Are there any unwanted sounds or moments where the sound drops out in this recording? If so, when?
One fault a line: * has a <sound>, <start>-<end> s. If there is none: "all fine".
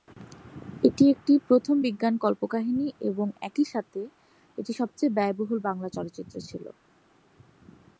all fine